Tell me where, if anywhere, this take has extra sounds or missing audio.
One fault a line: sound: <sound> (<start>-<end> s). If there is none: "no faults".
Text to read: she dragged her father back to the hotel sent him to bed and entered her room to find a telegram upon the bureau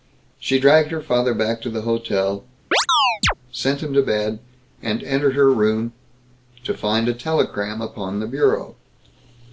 sound: chirp (2.7-3.3 s)